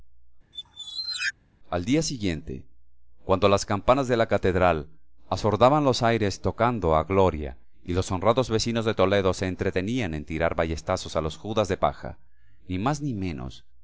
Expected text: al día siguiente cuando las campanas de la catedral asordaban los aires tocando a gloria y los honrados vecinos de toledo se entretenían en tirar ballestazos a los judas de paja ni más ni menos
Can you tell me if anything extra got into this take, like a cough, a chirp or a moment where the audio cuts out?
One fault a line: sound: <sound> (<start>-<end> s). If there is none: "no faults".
sound: squeak (0.5-1.3 s)